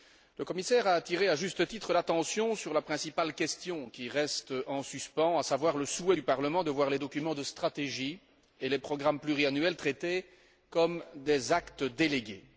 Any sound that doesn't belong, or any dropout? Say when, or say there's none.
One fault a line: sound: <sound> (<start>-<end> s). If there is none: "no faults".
no faults